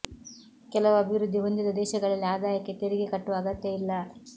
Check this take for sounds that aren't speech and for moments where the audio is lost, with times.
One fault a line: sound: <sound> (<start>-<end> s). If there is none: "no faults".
no faults